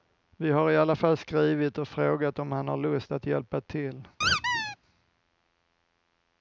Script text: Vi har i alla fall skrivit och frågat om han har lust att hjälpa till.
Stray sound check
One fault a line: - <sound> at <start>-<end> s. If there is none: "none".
- squeak at 4.2-4.8 s